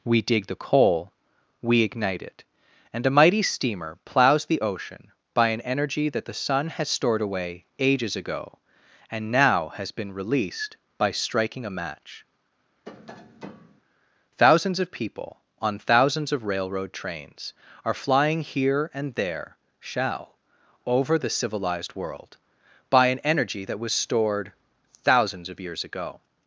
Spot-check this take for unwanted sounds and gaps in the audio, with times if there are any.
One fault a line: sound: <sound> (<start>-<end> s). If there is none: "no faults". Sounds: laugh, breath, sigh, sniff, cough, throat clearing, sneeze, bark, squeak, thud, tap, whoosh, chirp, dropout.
sound: tap (12.9-13.8 s)